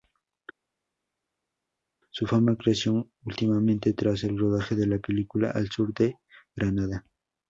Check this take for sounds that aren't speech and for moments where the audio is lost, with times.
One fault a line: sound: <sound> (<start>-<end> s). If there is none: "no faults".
no faults